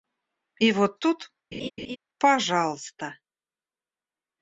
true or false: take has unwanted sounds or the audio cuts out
true